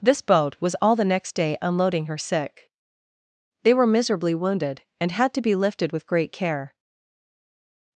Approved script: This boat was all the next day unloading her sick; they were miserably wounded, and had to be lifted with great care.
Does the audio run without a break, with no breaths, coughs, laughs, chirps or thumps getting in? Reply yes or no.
yes